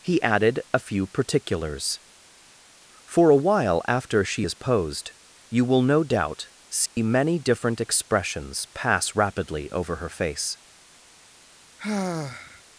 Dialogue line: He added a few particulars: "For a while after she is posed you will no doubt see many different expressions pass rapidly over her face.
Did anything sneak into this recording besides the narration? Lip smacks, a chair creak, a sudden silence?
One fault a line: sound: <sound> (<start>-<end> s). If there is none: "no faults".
sound: dropout (6.9-7.0 s)
sound: sigh (11.8-12.6 s)